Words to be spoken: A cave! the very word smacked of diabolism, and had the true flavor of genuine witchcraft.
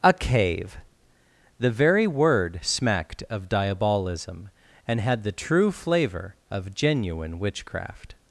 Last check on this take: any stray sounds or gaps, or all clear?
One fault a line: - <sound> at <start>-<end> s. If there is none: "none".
none